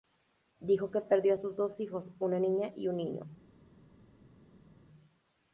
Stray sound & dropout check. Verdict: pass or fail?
pass